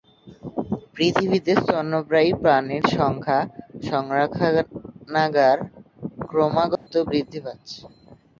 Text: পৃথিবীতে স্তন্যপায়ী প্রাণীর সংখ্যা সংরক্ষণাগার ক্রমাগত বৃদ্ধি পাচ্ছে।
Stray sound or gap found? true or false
true